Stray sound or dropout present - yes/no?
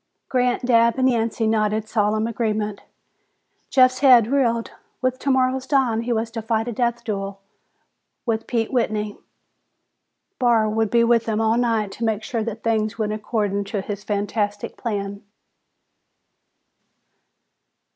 no